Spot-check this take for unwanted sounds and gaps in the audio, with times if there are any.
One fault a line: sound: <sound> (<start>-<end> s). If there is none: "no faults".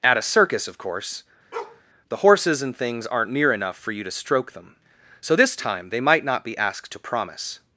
sound: bark (1.5-1.8 s)